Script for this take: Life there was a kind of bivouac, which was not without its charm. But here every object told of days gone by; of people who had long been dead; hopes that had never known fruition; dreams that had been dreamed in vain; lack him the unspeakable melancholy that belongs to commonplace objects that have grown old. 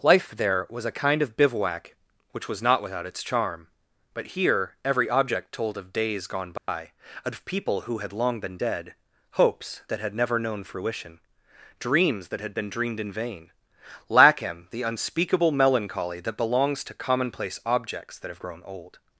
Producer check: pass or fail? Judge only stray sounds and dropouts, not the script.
fail